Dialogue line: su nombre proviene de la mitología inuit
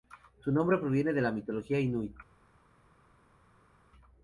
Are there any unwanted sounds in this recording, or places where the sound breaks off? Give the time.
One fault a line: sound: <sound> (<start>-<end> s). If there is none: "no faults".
no faults